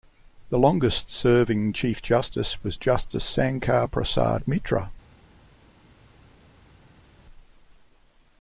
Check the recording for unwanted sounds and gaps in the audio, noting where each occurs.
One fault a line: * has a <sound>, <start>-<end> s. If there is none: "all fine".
all fine